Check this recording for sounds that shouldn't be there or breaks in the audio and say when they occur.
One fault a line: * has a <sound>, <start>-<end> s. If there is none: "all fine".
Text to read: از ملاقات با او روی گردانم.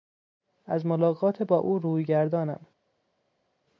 all fine